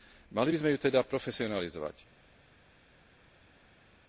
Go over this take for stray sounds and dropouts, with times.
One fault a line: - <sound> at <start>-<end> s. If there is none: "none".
none